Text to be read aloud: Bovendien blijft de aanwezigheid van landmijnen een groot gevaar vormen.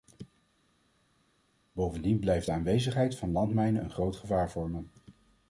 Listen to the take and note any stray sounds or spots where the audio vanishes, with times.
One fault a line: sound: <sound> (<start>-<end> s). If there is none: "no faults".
no faults